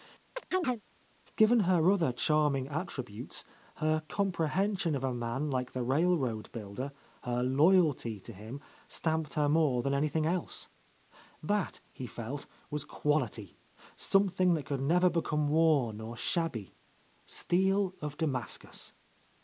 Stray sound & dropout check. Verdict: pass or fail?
fail